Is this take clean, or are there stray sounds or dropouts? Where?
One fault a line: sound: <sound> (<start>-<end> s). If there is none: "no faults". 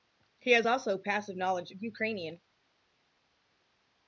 no faults